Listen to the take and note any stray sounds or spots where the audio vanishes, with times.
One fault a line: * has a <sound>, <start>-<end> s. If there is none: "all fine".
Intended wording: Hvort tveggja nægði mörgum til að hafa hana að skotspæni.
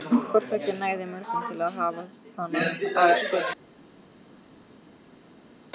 all fine